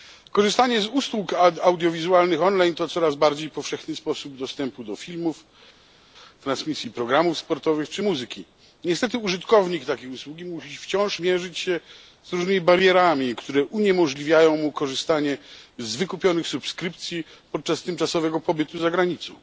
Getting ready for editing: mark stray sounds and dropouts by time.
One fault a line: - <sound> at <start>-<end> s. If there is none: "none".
none